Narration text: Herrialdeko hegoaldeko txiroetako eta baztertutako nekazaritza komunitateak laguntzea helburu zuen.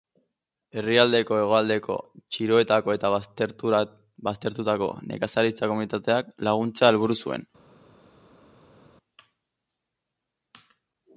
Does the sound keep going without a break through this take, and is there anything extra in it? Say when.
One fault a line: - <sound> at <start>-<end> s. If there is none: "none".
none